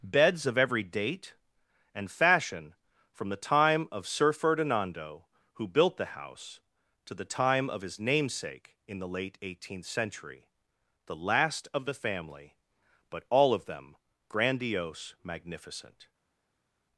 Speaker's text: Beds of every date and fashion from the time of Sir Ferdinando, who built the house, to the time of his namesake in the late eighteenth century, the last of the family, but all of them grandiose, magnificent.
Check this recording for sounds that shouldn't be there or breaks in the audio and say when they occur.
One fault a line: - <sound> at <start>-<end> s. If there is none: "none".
none